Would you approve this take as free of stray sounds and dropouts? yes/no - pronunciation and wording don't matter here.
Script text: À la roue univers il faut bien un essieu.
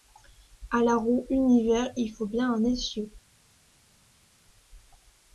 yes